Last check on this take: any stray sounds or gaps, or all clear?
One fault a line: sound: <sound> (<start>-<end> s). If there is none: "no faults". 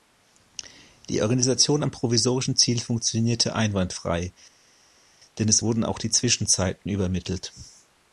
no faults